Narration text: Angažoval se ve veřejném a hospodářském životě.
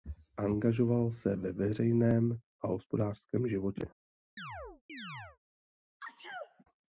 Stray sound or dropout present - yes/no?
yes